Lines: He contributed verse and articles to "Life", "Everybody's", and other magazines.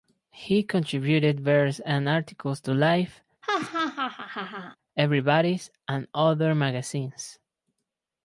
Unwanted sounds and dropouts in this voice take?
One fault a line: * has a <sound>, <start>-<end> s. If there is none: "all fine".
* has a laugh, 3.4-4.8 s